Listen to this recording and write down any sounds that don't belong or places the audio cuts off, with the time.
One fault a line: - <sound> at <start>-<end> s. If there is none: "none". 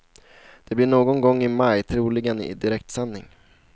none